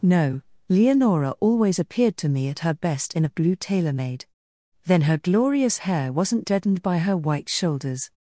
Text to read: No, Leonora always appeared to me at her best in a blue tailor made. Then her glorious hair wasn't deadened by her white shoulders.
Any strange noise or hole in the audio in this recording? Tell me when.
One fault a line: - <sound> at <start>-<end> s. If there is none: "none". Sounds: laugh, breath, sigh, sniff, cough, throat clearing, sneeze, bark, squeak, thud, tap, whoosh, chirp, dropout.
none